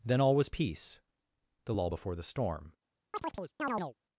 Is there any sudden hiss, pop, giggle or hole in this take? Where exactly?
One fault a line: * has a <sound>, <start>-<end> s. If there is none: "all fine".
* has a chirp, 3.1-3.9 s